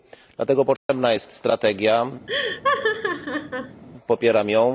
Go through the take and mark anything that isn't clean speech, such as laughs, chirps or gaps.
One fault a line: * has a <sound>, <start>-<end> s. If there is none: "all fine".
* has a dropout, 0.8-0.9 s
* has a laugh, 2.3-3.8 s